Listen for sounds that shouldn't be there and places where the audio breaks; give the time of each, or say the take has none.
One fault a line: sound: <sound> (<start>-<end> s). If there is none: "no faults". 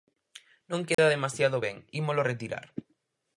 sound: dropout (0.9-1.0 s)